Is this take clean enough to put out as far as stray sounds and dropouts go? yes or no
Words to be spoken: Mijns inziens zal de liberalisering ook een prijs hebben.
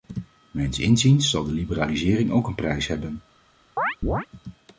no